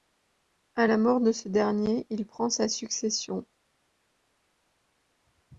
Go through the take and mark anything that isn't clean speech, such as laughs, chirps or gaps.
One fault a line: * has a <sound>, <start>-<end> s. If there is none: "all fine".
all fine